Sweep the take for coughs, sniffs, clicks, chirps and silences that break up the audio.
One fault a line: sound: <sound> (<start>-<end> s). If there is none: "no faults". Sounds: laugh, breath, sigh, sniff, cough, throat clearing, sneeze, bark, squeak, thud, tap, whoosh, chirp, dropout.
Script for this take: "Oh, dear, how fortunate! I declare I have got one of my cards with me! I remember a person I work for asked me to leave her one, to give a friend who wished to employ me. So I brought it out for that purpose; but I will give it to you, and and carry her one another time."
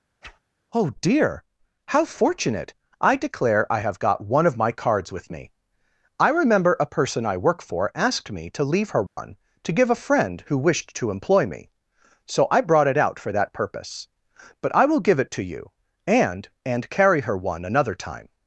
sound: whoosh (0.2-0.4 s)
sound: dropout (9.1-9.2 s)